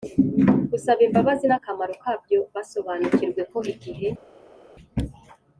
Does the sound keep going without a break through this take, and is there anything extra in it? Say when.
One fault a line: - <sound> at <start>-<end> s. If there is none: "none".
none